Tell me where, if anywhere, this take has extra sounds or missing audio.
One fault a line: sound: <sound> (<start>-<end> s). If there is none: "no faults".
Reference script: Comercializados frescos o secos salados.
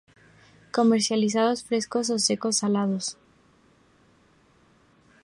no faults